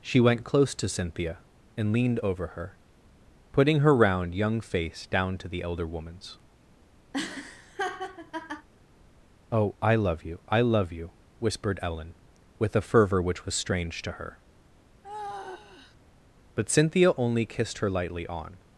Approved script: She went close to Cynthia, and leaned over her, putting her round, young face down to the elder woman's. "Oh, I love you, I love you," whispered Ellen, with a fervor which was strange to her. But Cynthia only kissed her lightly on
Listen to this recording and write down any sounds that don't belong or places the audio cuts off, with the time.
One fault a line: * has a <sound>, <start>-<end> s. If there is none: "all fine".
* has a laugh, 7.1-8.7 s
* has a sigh, 15.0-16.0 s